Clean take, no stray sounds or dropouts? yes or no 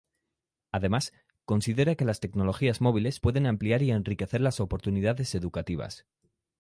yes